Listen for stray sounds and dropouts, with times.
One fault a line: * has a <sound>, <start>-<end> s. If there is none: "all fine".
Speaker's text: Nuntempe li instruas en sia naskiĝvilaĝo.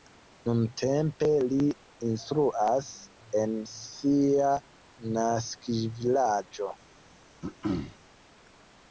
* has a throat clearing, 7.4-8.0 s